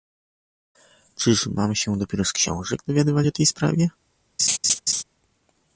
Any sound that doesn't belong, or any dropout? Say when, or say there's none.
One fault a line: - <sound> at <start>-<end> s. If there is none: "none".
- laugh at 4.4-5.0 s